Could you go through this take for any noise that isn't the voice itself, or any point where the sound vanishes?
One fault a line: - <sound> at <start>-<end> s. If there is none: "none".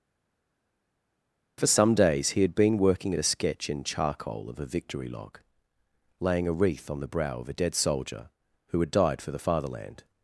none